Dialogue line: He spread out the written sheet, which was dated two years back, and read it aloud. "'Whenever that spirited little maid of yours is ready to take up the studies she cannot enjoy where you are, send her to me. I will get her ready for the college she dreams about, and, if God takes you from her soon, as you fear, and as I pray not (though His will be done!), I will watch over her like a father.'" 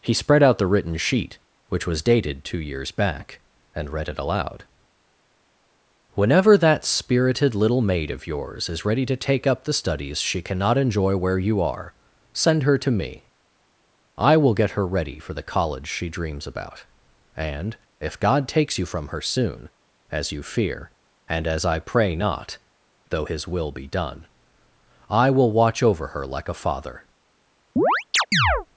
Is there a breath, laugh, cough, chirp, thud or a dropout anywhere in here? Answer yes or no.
yes